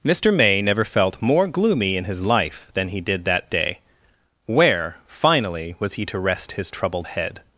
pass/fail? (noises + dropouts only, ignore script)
pass